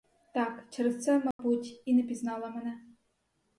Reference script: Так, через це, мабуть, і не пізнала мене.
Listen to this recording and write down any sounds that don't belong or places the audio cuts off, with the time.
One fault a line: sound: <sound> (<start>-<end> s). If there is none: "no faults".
sound: dropout (1.3-1.4 s)